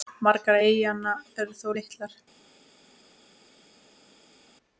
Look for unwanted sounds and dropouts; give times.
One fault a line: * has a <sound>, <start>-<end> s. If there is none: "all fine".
all fine